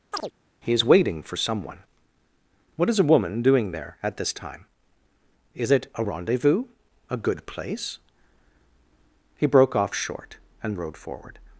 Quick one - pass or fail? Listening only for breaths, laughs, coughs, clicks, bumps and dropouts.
fail